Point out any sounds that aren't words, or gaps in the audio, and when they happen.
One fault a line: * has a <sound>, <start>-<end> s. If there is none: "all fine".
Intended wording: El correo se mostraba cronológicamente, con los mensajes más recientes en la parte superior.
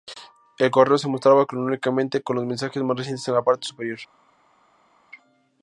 all fine